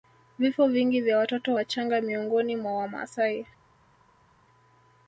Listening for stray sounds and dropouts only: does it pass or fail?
pass